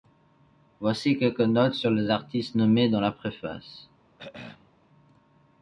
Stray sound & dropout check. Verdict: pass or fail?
fail